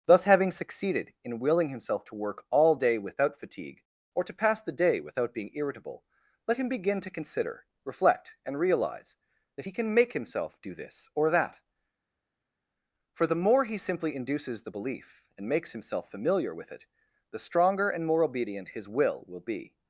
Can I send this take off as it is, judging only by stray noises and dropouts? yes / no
yes